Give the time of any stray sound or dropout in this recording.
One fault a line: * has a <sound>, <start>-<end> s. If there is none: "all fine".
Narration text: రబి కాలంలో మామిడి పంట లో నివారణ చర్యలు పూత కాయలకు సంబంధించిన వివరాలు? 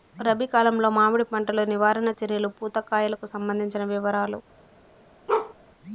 * has a bark, 5.3-5.5 s